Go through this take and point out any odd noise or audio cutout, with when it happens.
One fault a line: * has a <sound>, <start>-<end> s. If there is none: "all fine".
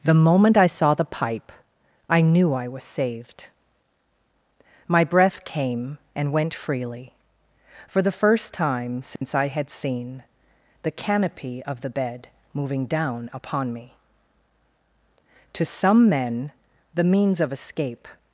* has a dropout, 9.2-9.2 s